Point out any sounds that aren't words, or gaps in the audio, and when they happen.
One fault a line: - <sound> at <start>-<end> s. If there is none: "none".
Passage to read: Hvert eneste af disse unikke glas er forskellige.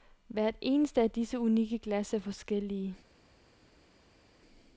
none